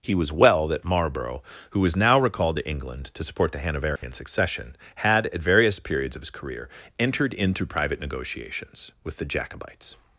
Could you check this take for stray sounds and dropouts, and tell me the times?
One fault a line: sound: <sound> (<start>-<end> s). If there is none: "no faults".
sound: dropout (4.0-4.0 s)